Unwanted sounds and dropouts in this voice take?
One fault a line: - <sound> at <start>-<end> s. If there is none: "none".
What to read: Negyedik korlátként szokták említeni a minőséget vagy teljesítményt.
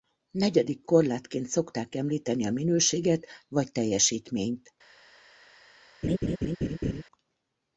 - laugh at 6.0-7.0 s